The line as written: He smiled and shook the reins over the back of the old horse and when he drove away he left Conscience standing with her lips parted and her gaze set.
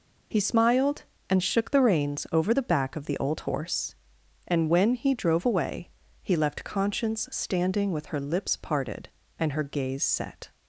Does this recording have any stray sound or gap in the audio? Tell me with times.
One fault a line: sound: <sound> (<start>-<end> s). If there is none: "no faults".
no faults